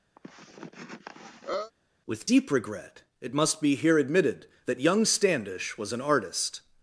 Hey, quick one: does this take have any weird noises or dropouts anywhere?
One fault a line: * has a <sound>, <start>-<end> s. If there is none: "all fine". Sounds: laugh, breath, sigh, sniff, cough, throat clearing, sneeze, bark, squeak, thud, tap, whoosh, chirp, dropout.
* has a cough, 0.2-1.7 s